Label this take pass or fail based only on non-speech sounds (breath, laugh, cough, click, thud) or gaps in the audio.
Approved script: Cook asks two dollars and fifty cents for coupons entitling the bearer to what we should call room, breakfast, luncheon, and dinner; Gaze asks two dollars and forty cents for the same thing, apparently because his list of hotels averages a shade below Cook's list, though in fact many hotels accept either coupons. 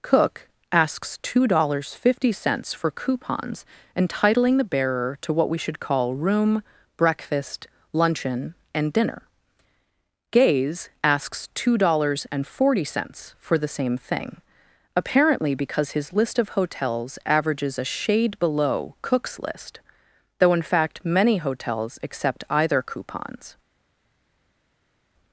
pass